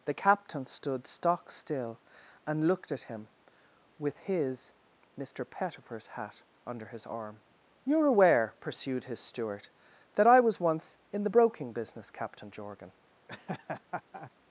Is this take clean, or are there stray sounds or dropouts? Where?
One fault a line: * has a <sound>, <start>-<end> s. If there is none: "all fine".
* has a laugh, 13.3-14.3 s